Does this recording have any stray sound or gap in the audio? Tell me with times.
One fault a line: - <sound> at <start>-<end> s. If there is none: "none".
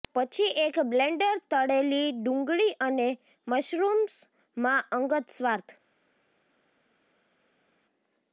none